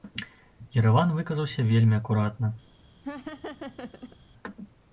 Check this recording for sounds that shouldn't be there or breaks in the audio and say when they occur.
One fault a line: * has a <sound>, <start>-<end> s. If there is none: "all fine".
* has a laugh, 3.0-4.2 s